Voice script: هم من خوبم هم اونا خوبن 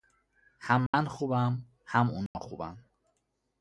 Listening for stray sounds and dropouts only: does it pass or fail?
fail